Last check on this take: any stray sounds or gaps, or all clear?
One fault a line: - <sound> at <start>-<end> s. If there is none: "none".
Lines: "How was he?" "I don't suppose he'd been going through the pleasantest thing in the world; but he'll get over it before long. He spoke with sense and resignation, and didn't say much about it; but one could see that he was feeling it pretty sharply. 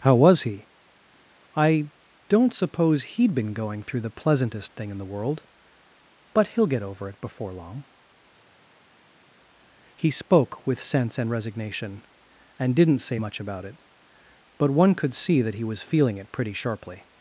none